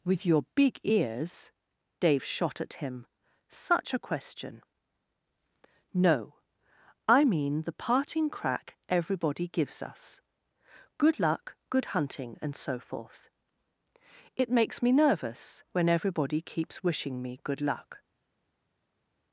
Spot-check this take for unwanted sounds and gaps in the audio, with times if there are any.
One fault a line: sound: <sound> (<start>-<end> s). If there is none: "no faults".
no faults